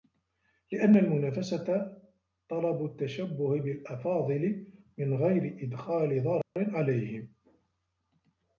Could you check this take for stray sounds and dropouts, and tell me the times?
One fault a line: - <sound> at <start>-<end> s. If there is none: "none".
- dropout at 6.4-6.6 s